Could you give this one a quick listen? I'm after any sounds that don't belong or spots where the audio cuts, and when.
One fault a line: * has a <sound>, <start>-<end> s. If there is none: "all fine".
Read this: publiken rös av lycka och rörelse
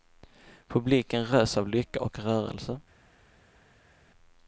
all fine